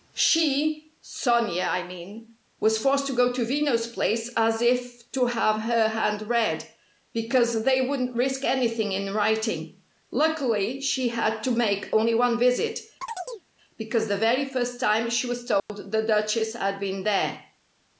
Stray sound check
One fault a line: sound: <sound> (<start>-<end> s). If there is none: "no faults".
sound: chirp (13.0-13.5 s)
sound: dropout (15.6-15.7 s)